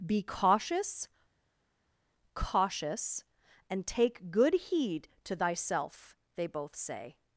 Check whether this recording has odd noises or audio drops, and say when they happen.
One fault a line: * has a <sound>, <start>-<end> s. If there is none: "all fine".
all fine